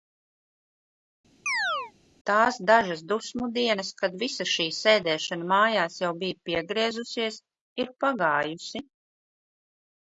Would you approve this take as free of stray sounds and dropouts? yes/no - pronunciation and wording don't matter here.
no